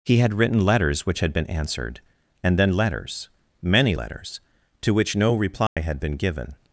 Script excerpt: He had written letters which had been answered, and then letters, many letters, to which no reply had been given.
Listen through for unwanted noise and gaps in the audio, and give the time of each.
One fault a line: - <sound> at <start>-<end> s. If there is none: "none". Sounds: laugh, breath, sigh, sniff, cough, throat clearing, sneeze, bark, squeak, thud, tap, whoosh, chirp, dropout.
- dropout at 5.7-5.8 s